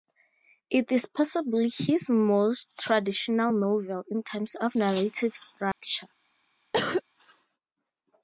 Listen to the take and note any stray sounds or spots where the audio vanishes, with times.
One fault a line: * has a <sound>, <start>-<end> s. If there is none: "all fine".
* has a dropout, 5.7-5.8 s
* has a cough, 6.7-7.0 s